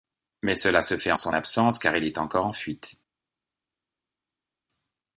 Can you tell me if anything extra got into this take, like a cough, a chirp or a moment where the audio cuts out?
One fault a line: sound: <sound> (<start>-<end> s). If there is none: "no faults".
no faults